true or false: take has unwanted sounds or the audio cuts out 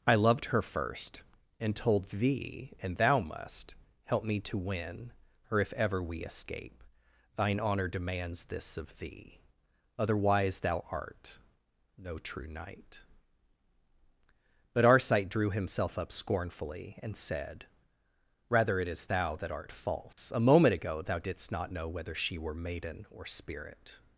true